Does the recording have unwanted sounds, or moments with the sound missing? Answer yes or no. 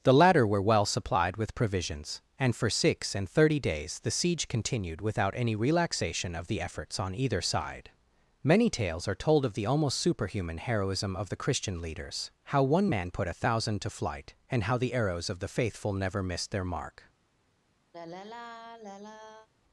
yes